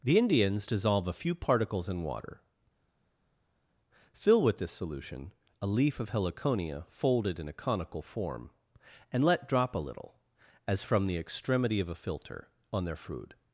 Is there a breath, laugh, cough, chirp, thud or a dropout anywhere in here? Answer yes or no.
no